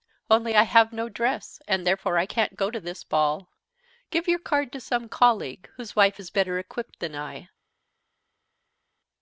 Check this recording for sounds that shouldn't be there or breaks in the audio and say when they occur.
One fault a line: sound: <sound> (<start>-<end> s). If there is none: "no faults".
no faults